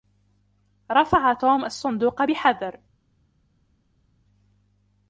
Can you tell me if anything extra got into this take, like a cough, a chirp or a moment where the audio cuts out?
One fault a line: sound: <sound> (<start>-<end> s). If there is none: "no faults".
no faults